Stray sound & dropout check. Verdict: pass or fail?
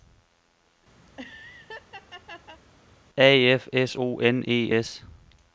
fail